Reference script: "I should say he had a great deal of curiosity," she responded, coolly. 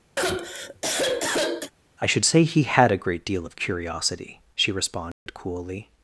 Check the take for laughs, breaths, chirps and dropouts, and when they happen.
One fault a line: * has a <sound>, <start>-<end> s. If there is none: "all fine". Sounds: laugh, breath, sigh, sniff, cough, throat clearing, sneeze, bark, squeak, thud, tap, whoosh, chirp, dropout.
* has a sigh, 0.2-1.7 s
* has a dropout, 5.1-5.3 s